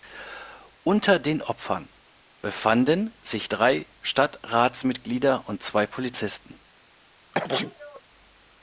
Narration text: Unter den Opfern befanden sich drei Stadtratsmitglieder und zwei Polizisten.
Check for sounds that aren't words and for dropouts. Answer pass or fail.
fail